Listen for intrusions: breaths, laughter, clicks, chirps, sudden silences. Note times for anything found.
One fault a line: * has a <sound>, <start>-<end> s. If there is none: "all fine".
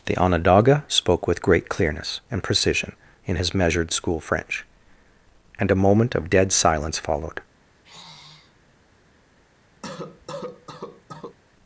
* has a sigh, 7.7-8.6 s
* has a cough, 9.8-11.4 s